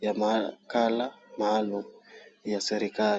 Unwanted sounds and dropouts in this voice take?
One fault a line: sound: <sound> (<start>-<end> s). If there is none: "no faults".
no faults